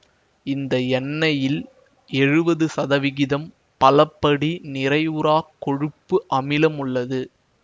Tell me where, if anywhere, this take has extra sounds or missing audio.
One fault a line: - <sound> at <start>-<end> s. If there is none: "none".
none